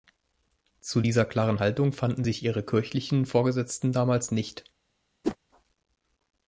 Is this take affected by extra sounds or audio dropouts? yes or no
yes